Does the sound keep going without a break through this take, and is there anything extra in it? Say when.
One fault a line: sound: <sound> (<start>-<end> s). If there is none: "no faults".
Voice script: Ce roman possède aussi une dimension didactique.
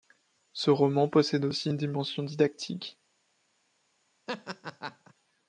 sound: laugh (4.3-5.1 s)